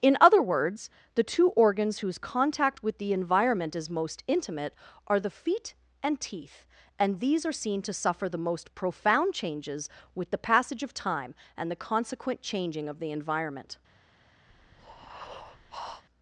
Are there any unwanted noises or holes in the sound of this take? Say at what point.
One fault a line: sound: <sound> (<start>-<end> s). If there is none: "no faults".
sound: breath (14.5-16.0 s)